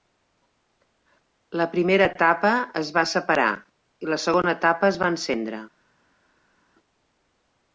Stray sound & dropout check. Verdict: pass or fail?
pass